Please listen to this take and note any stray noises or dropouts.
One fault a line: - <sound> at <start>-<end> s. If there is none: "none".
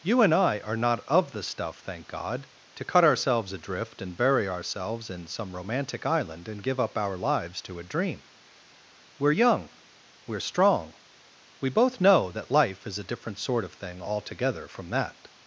none